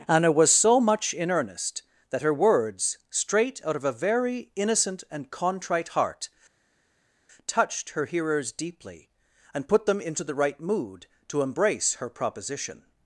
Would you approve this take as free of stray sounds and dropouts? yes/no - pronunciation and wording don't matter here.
yes